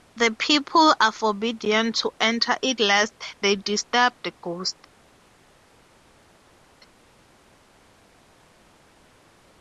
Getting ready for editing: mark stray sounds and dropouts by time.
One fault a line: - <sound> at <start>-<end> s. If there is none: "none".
none